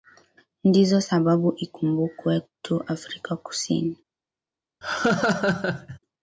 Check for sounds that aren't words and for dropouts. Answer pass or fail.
fail